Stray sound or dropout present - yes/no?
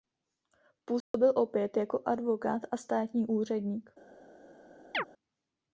yes